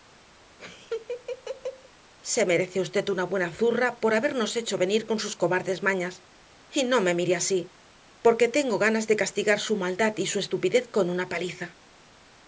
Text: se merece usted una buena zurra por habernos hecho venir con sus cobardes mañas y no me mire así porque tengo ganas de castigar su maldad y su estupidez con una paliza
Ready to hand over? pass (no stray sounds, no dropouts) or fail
fail